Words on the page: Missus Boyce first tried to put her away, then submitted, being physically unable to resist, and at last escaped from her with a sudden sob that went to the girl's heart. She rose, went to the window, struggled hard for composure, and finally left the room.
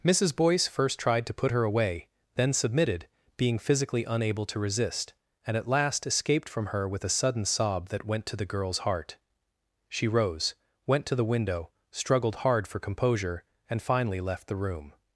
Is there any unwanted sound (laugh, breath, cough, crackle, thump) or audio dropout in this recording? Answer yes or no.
no